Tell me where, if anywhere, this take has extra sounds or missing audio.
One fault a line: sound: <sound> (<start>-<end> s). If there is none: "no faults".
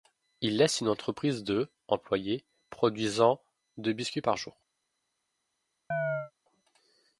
sound: chirp (5.9-6.3 s)